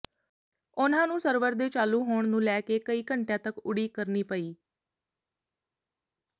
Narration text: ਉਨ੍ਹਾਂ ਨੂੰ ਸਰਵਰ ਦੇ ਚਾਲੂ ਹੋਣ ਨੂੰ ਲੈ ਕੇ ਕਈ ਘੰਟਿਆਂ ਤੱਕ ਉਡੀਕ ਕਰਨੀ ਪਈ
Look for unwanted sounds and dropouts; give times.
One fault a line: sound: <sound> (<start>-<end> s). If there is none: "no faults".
no faults